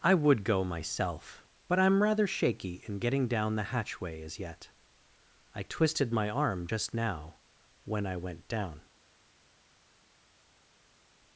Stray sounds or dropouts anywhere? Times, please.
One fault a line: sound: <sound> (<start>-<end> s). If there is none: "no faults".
no faults